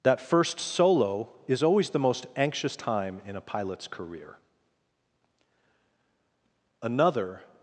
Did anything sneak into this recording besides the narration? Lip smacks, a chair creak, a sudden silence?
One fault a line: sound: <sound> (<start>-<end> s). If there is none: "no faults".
no faults